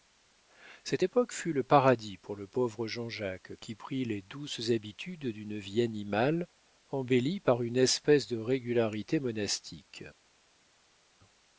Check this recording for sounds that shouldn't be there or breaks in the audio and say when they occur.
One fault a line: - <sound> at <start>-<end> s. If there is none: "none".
none